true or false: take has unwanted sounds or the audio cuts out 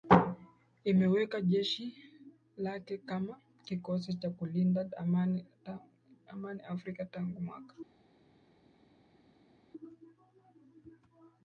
false